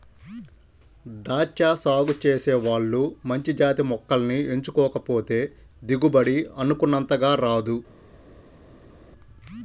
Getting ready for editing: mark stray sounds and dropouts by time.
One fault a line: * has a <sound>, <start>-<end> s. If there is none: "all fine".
all fine